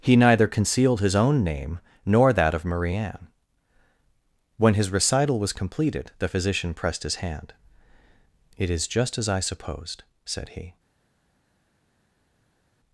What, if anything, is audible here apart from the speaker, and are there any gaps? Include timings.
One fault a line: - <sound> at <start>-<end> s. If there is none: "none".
none